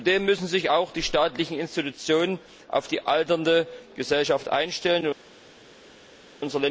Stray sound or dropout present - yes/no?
no